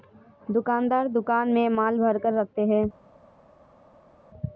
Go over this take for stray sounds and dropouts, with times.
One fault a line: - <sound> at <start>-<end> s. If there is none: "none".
none